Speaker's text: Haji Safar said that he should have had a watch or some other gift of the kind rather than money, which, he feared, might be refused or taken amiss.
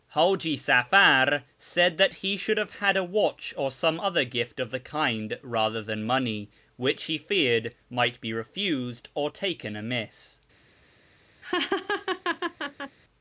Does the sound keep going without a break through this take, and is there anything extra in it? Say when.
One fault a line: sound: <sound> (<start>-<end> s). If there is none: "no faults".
sound: laugh (11.4-13.0 s)